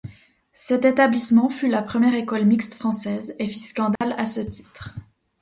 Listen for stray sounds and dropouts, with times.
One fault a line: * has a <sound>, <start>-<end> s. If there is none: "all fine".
* has a dropout, 4.0-4.0 s